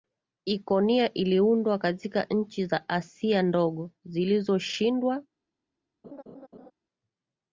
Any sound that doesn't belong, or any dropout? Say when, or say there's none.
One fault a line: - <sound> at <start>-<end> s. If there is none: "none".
- laugh at 6.0-6.7 s